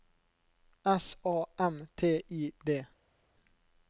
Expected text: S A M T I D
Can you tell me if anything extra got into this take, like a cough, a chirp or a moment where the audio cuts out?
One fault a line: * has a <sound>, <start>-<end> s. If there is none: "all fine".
all fine